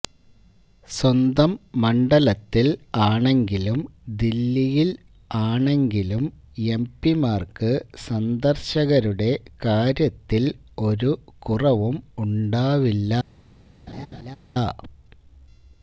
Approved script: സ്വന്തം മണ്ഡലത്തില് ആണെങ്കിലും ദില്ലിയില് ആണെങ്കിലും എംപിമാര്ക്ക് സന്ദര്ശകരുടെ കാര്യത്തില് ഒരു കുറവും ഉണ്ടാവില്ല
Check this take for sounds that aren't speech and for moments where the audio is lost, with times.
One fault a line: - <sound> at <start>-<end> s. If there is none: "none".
- laugh at 13.9-14.4 s